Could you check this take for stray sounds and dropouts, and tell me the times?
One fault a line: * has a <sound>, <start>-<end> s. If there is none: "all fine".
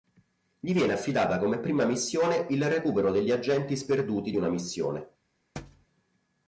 * has a thud, 5.6-5.9 s